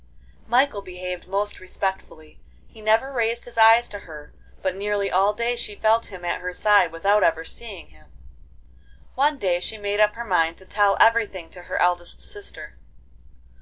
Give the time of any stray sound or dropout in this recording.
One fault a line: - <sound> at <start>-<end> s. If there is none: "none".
none